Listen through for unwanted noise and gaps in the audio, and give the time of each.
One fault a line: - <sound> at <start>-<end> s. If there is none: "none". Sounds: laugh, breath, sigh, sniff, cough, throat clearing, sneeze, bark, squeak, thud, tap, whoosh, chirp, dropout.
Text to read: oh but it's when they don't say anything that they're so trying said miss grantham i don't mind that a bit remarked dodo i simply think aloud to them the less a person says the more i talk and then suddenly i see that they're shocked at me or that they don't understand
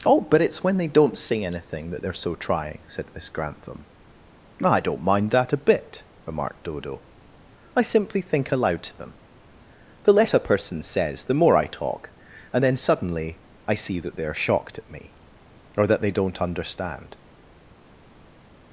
none